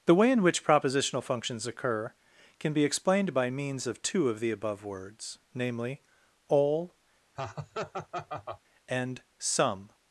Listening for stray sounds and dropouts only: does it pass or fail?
fail